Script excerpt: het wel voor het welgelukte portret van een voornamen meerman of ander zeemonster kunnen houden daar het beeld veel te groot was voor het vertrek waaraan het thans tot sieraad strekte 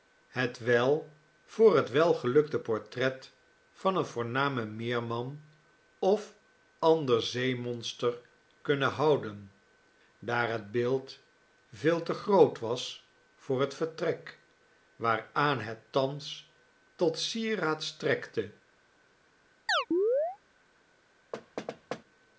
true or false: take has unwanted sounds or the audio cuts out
true